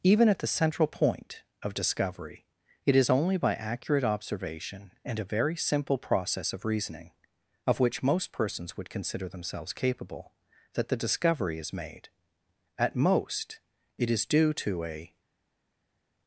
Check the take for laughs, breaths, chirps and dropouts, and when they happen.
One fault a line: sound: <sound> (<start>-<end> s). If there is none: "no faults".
no faults